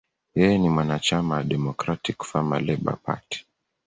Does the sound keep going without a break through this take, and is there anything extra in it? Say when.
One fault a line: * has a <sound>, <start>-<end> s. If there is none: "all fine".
all fine